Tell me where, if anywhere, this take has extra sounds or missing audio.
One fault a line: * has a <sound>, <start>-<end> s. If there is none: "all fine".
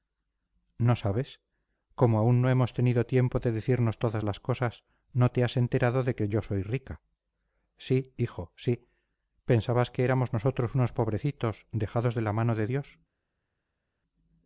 all fine